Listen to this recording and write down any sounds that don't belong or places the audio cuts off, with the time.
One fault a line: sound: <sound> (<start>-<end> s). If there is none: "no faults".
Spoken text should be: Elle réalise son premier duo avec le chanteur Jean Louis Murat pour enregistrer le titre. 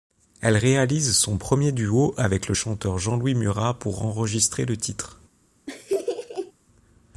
sound: laugh (5.7-6.5 s)